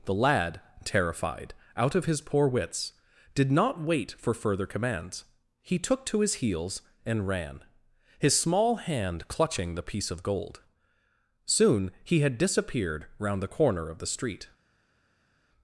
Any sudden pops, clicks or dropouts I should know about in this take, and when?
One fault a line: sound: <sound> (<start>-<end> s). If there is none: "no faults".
no faults